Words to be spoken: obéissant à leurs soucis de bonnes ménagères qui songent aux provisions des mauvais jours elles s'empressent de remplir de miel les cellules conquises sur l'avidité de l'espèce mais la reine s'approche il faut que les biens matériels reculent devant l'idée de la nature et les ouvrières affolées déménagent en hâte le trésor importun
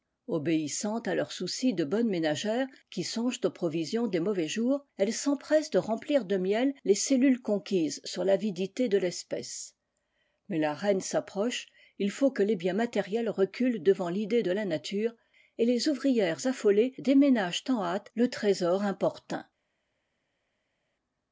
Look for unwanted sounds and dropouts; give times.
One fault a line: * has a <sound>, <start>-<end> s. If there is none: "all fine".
all fine